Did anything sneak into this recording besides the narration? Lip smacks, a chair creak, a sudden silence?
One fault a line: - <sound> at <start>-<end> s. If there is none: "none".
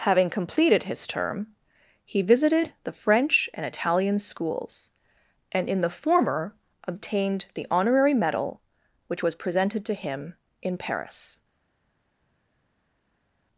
none